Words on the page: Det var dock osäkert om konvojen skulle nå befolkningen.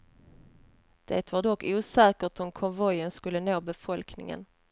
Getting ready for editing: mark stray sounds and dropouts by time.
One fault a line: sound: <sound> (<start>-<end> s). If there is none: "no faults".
no faults